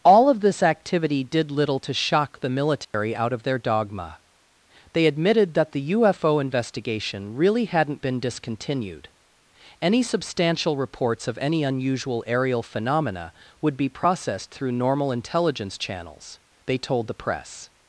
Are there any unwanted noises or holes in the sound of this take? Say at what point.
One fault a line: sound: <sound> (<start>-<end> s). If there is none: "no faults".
sound: dropout (2.8-2.9 s)